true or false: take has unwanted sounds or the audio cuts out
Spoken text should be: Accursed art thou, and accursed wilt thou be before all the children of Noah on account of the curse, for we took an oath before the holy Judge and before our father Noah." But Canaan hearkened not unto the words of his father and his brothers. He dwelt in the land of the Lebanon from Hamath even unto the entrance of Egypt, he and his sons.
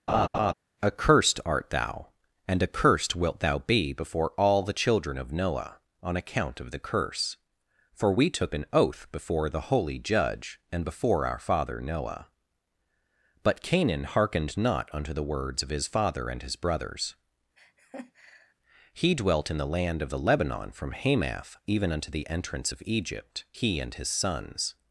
true